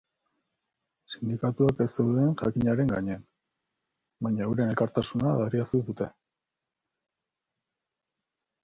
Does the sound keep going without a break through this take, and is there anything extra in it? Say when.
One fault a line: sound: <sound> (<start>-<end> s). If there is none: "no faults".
no faults